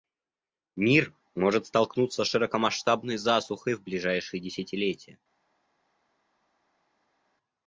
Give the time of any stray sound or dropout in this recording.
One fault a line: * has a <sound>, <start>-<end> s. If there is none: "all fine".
all fine